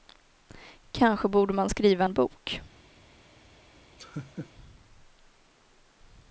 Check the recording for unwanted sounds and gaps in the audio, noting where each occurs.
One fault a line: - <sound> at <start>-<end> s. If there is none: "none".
- laugh at 4.0-4.5 s